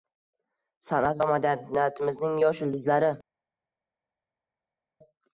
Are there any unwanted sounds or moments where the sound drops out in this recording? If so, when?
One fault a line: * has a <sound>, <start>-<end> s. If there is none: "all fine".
all fine